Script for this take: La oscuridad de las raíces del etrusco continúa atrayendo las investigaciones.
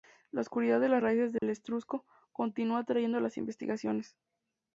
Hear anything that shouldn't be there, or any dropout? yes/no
yes